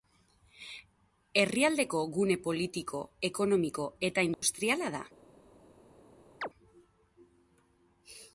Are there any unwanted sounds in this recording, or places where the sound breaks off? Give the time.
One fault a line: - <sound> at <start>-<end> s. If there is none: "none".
- dropout at 4.3-4.4 s
- chirp at 6.4-6.5 s